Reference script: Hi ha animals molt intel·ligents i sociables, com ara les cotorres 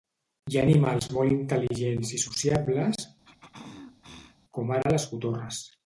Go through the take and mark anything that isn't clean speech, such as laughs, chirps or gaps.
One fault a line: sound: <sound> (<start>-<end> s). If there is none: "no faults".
sound: throat clearing (3.2-4.4 s)